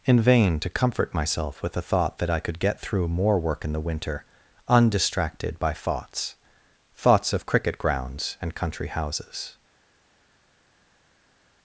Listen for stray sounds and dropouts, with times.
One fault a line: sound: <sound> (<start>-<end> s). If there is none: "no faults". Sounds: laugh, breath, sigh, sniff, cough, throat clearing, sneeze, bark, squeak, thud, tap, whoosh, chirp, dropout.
no faults